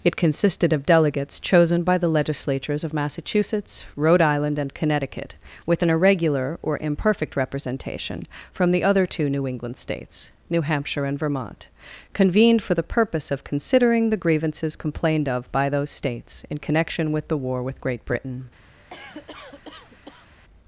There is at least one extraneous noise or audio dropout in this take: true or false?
true